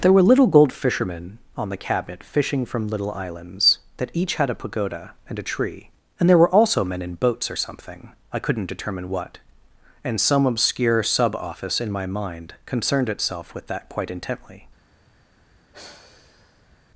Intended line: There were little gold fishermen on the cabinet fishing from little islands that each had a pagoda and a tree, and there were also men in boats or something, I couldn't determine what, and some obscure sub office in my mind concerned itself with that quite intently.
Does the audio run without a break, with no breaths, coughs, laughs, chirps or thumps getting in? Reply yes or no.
no